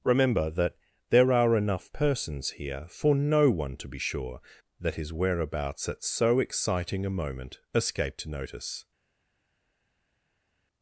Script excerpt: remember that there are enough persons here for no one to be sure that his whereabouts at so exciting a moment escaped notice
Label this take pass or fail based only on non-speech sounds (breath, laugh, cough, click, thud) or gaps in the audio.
pass